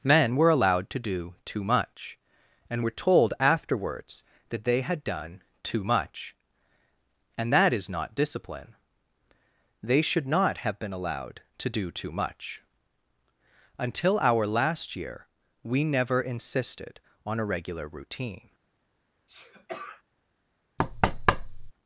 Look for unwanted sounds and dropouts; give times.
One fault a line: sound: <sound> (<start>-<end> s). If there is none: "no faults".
sound: sneeze (19.3-20.0 s)
sound: thud (20.8-21.7 s)